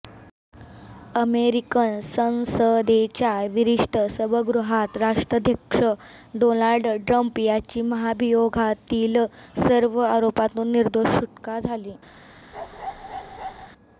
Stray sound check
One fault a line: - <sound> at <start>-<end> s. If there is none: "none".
- bark at 12.5-13.7 s